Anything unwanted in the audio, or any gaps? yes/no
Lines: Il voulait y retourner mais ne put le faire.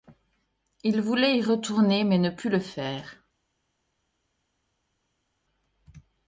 no